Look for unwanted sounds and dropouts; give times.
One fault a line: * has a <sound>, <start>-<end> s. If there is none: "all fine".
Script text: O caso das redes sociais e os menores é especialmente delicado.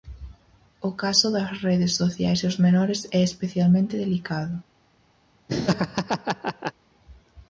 * has a laugh, 5.5-6.7 s